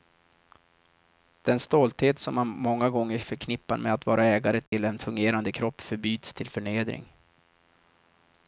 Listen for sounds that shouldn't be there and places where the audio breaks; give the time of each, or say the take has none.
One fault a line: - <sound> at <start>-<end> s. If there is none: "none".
- dropout at 4.7-4.7 s